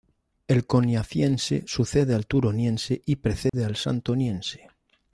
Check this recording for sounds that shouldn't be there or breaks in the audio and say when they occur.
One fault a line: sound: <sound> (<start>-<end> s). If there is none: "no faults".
sound: dropout (3.5-3.5 s)